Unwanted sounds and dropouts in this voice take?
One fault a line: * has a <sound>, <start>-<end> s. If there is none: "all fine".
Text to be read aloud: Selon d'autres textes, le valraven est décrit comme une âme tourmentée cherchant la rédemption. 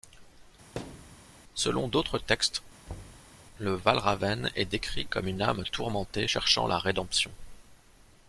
* has a thud, 0.8-1.2 s
* has a thud, 2.9-3.4 s